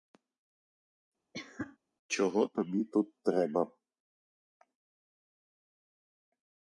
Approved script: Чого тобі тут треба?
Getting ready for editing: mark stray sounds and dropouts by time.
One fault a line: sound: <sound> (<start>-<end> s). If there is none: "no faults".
sound: cough (1.3-1.8 s)